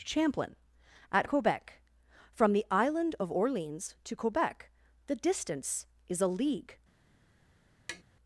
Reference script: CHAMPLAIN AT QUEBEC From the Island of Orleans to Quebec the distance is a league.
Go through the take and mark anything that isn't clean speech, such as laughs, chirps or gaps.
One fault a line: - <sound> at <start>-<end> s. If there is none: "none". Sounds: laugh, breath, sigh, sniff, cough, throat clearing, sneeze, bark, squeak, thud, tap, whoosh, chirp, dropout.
- tap at 7.9-8.0 s